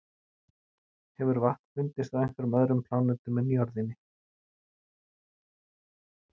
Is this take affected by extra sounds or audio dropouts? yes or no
no